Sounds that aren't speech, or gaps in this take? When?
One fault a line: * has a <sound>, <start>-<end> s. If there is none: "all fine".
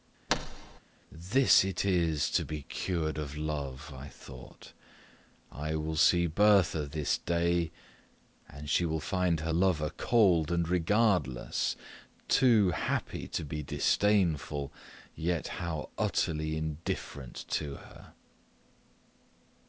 * has a thud, 0.3-0.8 s